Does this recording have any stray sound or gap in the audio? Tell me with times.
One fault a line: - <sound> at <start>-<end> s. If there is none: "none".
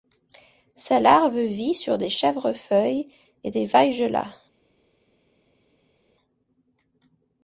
none